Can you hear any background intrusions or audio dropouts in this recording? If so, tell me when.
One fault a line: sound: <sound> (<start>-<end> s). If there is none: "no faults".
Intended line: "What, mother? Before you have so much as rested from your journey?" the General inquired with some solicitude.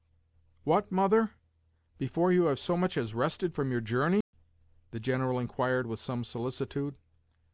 sound: dropout (4.2-4.3 s)